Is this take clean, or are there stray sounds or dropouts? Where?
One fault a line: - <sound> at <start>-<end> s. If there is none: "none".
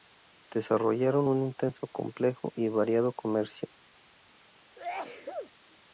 - sneeze at 4.8-5.5 s